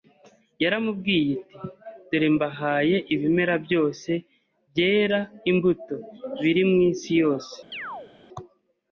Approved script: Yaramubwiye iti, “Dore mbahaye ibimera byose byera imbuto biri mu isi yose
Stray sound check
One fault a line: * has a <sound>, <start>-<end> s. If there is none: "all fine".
* has a chirp, 7.7-8.1 s